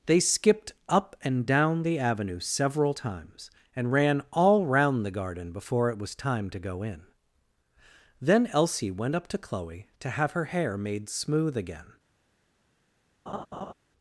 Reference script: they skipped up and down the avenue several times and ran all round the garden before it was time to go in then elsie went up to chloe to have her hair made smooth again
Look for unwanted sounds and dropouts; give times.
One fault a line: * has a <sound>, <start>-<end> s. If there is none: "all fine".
* has a laugh, 13.3-13.7 s